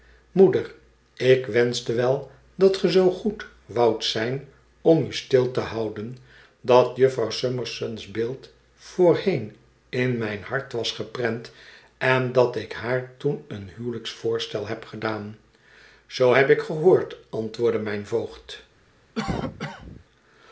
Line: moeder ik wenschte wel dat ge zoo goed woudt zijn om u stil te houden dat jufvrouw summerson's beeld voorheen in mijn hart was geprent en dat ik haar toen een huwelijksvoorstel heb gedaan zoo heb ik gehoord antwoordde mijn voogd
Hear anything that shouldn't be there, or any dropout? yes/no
yes